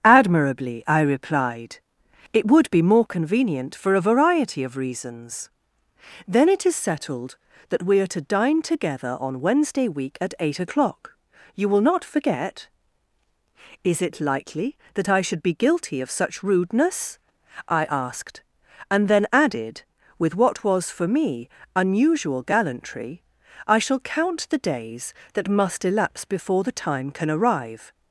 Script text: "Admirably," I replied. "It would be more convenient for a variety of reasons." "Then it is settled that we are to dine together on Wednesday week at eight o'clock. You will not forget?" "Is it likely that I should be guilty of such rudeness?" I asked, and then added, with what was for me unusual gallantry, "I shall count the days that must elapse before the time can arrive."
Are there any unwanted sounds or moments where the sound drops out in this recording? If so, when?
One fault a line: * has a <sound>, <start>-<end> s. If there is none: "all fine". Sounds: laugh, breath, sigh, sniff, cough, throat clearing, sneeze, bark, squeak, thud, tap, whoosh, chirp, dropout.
all fine